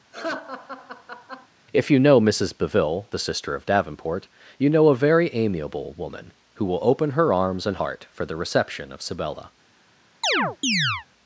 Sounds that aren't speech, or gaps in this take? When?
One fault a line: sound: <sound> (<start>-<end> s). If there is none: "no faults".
sound: laugh (0.1-1.5 s)
sound: chirp (10.2-11.1 s)